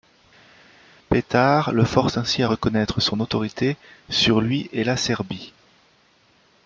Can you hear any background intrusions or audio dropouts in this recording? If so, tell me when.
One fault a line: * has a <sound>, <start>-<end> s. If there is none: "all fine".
all fine